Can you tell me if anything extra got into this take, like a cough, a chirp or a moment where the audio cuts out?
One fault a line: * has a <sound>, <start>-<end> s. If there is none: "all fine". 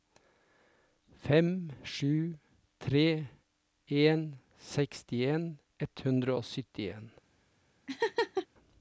* has a laugh, 7.9-8.5 s